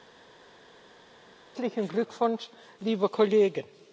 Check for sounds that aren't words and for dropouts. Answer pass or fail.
pass